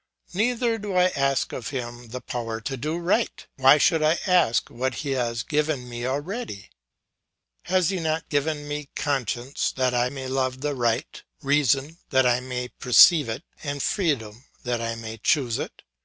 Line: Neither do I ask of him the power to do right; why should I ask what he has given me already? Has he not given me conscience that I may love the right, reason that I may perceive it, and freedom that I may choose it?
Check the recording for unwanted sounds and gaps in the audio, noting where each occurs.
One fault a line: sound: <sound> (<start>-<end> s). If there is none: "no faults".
no faults